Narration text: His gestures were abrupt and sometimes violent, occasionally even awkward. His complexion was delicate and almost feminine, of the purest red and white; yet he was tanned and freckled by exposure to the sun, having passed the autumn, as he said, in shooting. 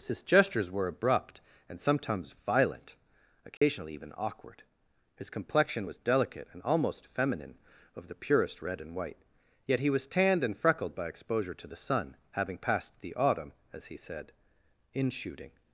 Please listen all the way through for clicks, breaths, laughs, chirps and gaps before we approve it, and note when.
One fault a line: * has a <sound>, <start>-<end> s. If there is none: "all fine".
* has a dropout, 3.6-3.6 s